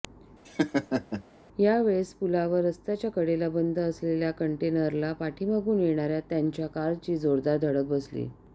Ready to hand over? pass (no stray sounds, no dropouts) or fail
fail